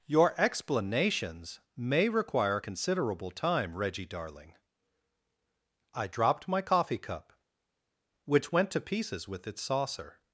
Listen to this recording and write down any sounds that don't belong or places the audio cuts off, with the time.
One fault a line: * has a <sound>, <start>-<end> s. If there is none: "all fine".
all fine